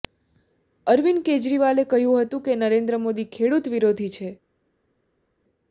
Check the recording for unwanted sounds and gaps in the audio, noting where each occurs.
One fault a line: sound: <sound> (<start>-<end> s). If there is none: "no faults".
no faults